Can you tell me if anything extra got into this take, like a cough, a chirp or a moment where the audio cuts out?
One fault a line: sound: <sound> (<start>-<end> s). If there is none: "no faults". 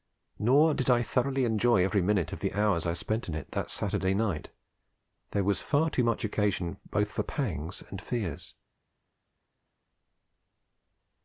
no faults